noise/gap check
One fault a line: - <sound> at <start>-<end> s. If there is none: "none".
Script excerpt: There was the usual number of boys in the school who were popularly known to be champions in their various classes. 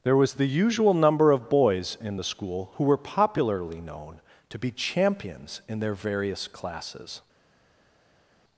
none